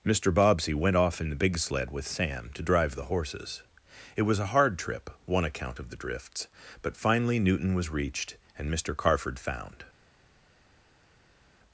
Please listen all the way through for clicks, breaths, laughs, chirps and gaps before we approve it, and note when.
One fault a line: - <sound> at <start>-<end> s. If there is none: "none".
none